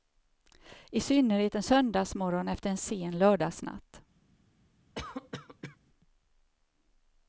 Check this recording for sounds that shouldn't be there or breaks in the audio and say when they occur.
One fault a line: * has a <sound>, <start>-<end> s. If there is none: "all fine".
* has a cough, 5.0-5.8 s